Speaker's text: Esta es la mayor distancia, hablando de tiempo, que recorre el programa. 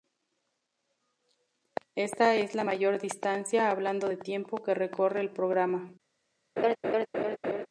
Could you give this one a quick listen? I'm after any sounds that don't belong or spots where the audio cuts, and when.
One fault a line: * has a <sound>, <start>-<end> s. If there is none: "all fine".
* has a laugh, 6.6-7.7 s